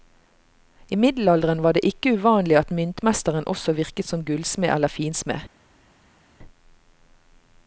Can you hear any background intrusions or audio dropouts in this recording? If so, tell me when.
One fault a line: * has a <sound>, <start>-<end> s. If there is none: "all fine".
all fine